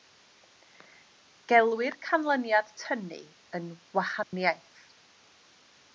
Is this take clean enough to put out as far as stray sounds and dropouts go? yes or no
no